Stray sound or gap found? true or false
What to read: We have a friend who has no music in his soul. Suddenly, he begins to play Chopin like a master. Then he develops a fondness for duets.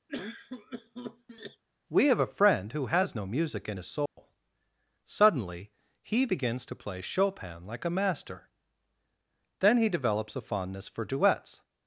true